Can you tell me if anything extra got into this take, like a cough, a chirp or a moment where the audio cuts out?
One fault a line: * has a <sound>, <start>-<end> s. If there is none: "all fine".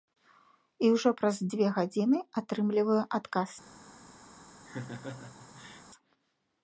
* has a laugh, 4.7-5.8 s